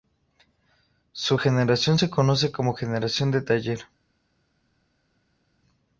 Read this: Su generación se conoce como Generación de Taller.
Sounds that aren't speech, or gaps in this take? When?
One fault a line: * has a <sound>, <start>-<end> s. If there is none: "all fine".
all fine